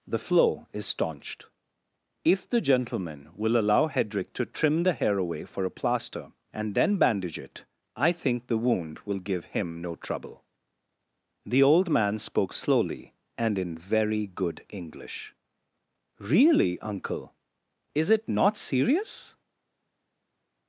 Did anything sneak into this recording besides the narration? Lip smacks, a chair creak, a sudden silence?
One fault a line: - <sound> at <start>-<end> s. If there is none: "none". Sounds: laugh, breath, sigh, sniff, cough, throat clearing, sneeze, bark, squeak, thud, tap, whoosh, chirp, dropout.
none